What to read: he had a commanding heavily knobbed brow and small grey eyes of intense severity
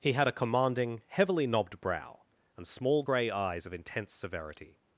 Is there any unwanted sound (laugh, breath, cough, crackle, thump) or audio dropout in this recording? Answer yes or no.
no